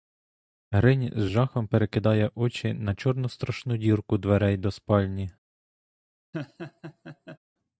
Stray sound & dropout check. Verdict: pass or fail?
fail